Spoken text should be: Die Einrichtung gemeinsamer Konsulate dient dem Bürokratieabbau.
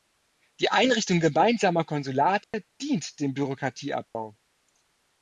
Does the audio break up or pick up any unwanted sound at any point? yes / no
yes